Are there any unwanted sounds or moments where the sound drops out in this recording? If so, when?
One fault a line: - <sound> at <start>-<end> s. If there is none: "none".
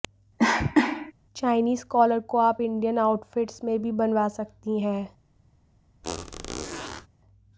- cough at 0.4-1.1 s
- squeak at 6.0-7.1 s